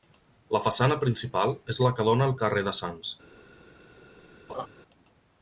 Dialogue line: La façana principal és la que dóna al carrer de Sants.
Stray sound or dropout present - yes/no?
yes